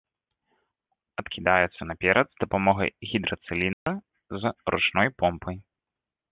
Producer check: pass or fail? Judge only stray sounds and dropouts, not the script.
fail